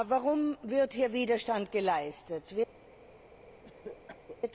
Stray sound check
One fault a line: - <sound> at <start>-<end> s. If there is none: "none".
- cough at 3.6-4.4 s